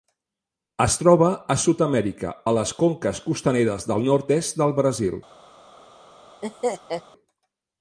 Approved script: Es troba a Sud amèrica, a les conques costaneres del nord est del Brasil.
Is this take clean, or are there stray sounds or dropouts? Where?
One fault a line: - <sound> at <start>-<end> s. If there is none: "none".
- laugh at 6.4-7.0 s